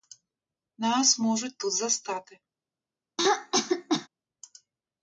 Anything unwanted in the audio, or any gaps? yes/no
yes